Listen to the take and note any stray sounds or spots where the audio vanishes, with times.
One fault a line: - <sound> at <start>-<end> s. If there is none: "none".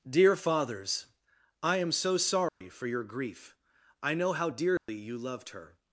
- dropout at 2.5-2.6 s
- dropout at 4.8-4.9 s